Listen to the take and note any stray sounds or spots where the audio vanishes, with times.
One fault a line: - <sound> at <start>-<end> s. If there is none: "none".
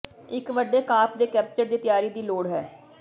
none